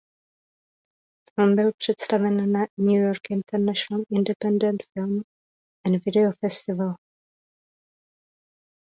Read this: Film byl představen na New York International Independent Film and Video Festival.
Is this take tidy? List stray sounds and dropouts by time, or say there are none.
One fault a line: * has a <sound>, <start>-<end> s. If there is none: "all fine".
all fine